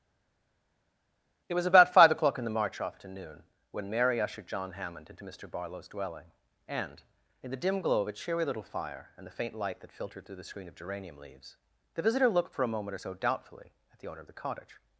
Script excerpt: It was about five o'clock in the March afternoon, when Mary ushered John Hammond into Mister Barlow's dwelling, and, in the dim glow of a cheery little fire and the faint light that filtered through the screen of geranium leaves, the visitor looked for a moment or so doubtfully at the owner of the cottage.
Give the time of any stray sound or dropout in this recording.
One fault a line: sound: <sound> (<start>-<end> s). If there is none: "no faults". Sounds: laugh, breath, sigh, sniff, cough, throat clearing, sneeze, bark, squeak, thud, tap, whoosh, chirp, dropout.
no faults